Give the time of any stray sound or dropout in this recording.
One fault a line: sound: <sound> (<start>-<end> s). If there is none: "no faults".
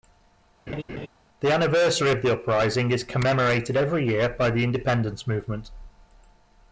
sound: laugh (0.7-1.1 s)